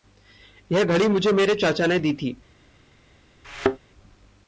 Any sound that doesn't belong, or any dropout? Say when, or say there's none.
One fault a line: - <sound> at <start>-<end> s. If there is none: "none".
- thud at 3.4-3.8 s